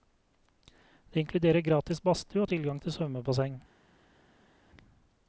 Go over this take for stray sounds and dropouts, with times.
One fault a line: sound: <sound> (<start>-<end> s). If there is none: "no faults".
no faults